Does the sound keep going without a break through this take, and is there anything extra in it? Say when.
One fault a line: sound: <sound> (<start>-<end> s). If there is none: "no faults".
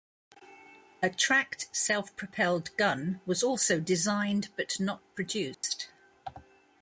sound: dropout (5.5-5.6 s)